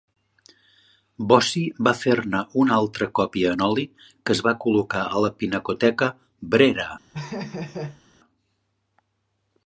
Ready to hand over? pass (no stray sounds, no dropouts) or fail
fail